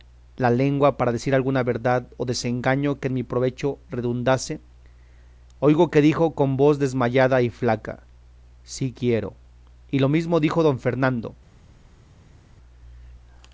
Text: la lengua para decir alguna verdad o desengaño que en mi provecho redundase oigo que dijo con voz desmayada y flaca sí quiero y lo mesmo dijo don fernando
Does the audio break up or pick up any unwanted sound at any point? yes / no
no